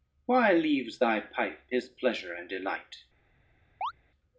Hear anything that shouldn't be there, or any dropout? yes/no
yes